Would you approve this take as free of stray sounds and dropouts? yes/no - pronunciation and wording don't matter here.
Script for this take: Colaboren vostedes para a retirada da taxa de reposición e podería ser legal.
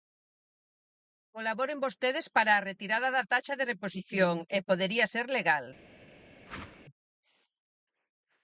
no